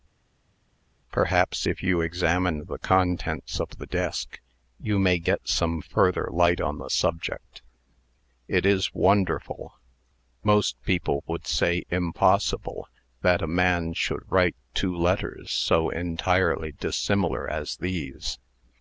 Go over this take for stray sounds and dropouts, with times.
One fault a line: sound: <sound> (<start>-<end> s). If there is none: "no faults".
no faults